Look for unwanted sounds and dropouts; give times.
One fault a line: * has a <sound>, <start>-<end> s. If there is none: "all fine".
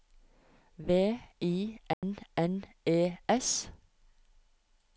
* has a dropout, 1.9-2.0 s